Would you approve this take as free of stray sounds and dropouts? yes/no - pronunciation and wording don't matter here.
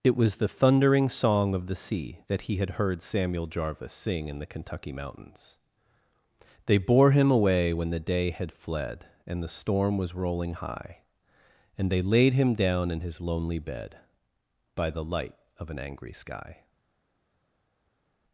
yes